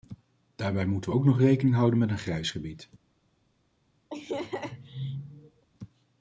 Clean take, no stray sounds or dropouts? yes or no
no